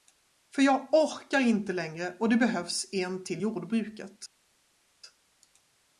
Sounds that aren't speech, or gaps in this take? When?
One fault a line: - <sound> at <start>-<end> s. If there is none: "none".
none